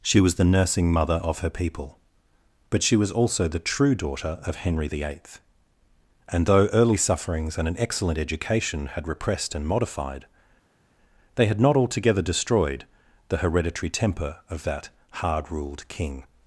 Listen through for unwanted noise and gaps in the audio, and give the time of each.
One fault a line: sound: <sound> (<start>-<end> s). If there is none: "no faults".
no faults